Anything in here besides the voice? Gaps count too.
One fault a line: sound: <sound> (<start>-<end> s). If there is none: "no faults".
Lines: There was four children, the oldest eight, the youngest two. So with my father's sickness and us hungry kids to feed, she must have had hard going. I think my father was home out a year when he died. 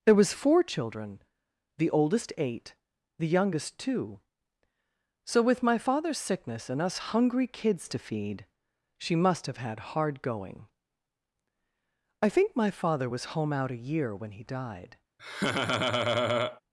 sound: laugh (15.2-16.6 s)